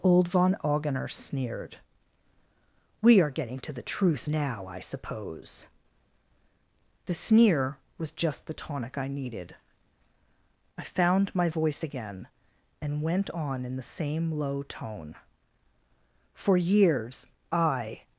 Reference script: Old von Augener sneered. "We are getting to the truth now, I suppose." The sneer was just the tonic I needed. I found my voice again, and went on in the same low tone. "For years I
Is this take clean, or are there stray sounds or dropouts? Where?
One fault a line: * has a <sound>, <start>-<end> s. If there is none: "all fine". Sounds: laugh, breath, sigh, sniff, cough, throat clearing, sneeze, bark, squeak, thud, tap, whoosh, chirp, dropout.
all fine